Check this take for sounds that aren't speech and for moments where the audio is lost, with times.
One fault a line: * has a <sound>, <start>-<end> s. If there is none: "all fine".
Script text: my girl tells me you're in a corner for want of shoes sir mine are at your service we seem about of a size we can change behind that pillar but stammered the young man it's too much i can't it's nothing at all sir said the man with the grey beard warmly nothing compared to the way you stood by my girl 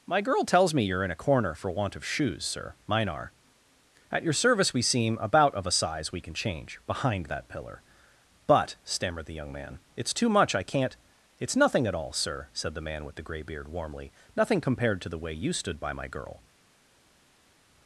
all fine